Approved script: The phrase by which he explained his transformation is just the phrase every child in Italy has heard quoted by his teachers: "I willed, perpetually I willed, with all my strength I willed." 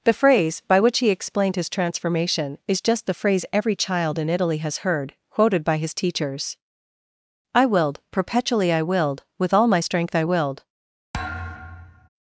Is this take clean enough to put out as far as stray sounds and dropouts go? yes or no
no